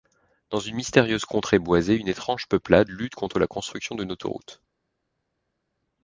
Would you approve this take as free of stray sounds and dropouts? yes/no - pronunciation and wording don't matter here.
yes